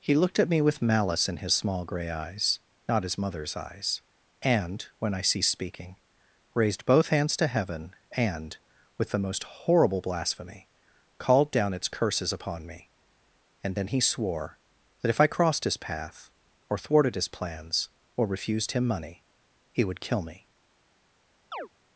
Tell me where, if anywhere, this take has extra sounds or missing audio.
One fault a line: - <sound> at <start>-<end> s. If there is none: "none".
- chirp at 21.5-21.7 s